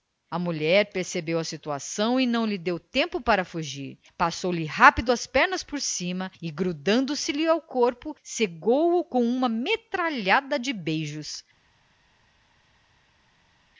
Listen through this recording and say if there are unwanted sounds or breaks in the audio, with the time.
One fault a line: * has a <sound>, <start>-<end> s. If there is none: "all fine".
all fine